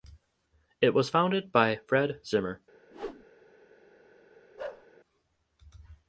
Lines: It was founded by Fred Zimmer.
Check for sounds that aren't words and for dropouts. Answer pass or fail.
fail